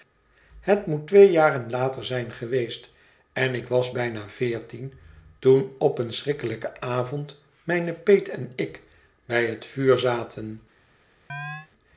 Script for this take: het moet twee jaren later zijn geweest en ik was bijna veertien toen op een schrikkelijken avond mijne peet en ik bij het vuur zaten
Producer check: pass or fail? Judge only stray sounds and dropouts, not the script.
fail